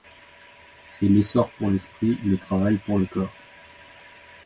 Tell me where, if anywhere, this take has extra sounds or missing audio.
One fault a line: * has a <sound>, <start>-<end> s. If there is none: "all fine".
all fine